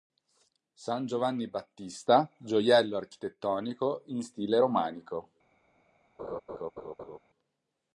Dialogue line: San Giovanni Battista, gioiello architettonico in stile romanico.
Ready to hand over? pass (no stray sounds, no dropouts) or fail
fail